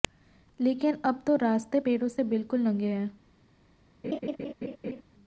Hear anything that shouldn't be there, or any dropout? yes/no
yes